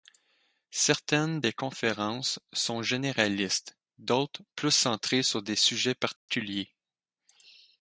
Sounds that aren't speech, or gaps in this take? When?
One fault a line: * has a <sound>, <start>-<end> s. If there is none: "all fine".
* has a dropout, 6.2-6.3 s